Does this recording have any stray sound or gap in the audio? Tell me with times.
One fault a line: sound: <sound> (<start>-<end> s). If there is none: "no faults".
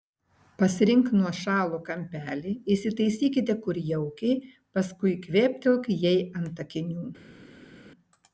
no faults